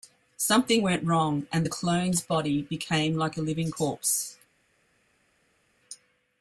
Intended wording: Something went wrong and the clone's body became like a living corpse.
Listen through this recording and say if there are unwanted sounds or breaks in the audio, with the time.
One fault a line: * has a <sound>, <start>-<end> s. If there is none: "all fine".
all fine